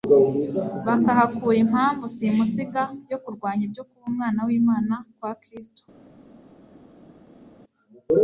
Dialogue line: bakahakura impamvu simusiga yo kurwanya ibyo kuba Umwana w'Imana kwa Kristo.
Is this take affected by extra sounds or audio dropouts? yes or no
no